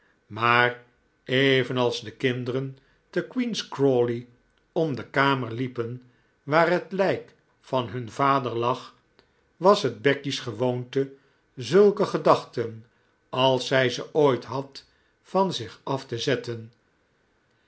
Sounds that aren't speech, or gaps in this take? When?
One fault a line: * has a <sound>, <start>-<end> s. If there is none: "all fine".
all fine